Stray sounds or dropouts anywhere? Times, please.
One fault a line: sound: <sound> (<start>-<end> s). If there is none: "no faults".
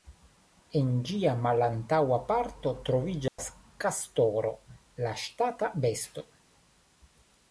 sound: dropout (3.3-3.4 s)